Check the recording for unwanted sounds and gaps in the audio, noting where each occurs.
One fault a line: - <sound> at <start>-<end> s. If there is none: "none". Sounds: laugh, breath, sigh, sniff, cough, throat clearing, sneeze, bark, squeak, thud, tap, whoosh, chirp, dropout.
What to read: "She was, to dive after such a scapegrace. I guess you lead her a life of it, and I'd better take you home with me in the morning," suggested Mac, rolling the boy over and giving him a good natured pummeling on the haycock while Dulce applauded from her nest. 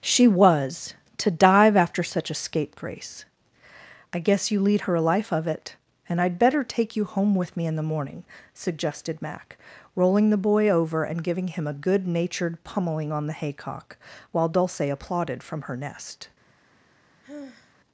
- sigh at 17.2-17.7 s